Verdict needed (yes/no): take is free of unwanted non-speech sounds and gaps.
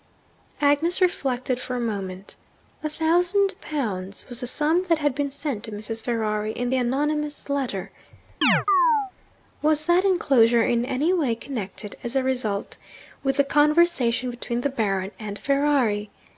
no